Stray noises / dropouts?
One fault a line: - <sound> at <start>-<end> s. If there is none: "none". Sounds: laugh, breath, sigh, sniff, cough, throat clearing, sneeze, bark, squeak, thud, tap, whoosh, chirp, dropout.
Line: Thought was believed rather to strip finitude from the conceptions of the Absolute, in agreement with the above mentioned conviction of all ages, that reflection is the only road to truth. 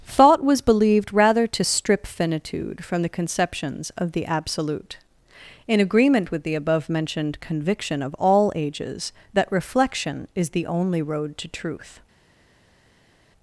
none